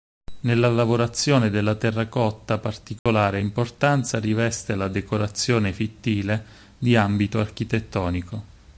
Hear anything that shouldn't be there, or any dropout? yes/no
yes